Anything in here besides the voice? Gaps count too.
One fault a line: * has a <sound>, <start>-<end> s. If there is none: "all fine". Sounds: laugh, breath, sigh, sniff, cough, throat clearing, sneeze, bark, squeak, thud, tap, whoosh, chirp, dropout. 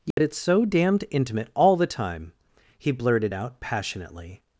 * has a dropout, 0.1-0.2 s